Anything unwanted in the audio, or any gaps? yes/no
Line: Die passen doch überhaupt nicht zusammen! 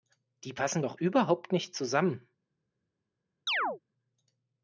yes